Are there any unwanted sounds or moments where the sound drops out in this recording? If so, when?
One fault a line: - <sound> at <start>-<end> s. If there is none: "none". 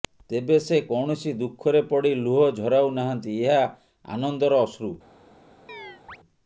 - chirp at 5.7-6.2 s